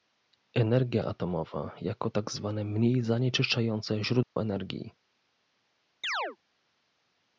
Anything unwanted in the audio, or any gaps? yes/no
yes